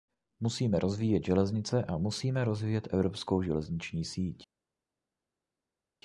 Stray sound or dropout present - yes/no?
no